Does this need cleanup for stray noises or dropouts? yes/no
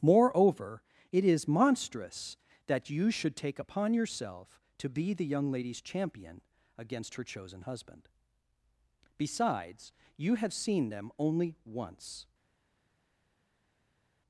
no